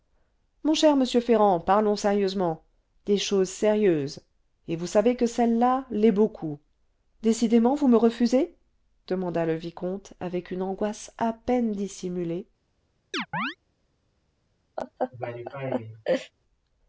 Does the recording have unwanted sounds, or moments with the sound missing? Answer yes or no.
yes